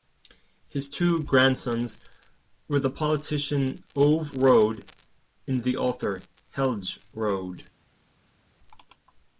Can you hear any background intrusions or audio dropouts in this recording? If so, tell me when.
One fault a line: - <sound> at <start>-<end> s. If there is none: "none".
none